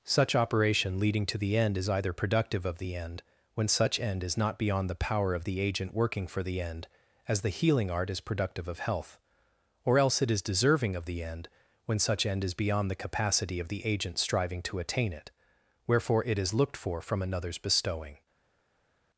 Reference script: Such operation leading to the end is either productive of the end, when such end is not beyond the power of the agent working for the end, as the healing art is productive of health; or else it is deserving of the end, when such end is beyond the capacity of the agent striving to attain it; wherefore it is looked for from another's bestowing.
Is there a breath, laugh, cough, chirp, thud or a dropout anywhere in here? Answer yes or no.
no